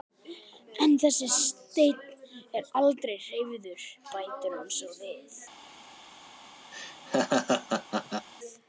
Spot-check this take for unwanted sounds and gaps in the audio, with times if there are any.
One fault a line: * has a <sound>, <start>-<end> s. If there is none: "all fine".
* has a laugh, 6.7-8.3 s